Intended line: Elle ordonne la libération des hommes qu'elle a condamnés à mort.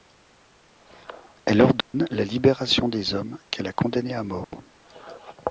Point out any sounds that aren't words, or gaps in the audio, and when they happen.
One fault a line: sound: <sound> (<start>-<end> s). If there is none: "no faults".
sound: dropout (1.8-1.9 s)
sound: dropout (4.4-4.5 s)